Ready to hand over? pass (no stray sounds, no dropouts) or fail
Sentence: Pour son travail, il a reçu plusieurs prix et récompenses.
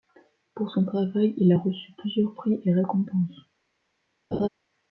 fail